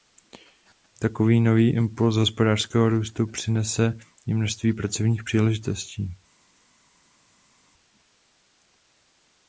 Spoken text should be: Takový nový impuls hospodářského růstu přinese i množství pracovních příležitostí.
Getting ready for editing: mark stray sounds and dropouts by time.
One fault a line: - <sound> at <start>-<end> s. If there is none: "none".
none